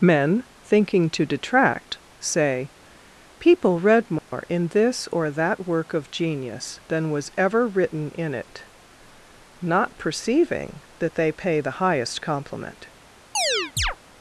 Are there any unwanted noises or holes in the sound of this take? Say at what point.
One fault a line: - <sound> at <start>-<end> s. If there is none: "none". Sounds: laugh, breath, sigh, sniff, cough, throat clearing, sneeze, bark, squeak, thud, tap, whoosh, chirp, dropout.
- dropout at 4.2-4.3 s
- chirp at 13.3-14.0 s